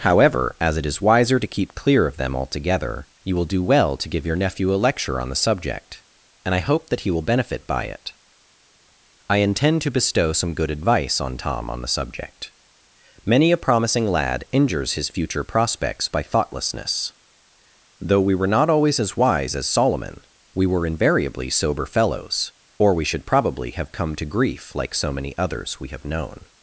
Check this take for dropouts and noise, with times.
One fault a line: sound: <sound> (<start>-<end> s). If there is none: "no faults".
no faults